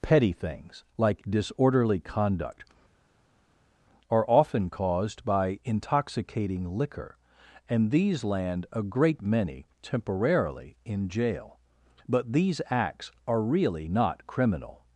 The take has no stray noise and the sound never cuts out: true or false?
true